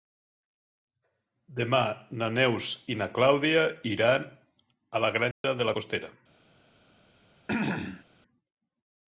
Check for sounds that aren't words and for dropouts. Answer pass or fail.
fail